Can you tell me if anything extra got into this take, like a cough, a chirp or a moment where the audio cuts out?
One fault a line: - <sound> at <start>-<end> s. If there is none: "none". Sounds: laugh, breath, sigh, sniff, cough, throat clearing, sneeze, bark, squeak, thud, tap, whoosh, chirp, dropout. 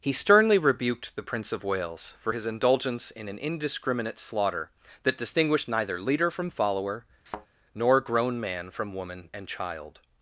- thud at 7.3-7.5 s